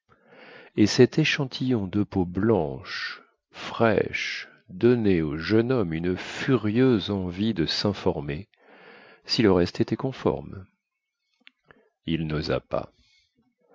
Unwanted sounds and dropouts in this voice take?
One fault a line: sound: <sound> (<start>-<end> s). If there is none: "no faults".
no faults